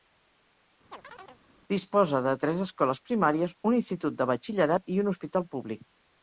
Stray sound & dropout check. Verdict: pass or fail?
fail